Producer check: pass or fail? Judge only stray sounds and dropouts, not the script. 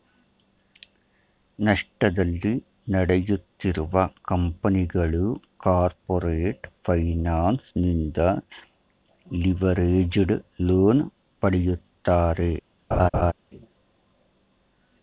fail